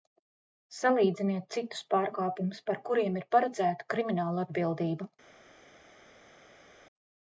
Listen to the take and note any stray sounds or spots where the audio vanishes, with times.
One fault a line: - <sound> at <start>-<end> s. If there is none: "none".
none